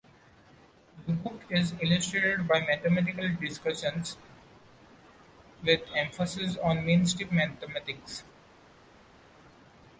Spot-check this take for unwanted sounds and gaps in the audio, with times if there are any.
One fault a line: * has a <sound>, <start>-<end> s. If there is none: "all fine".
all fine